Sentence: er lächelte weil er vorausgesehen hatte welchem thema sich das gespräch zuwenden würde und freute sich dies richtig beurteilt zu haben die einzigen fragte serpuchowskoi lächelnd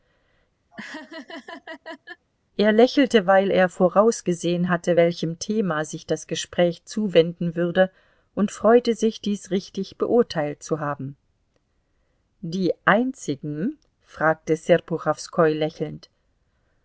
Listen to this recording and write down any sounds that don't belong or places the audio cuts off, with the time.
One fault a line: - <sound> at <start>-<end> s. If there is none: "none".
- laugh at 0.7-2.3 s